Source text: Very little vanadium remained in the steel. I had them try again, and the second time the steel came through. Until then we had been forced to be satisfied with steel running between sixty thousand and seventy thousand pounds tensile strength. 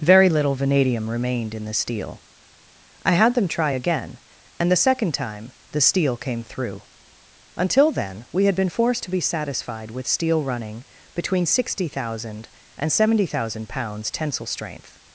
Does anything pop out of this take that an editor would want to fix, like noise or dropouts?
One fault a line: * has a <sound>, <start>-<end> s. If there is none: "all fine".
all fine